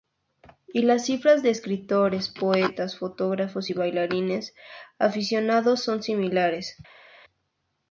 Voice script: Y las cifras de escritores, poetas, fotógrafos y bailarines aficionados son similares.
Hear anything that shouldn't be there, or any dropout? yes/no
no